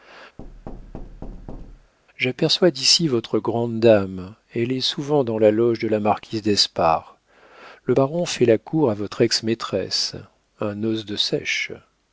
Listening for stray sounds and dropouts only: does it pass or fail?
fail